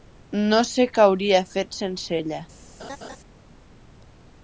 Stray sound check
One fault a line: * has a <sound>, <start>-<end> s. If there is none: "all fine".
* has a laugh, 2.8-3.2 s